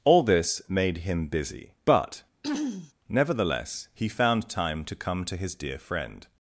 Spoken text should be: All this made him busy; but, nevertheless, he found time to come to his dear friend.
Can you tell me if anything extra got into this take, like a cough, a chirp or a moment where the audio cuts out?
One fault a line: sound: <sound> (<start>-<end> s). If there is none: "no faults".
sound: throat clearing (2.4-2.9 s)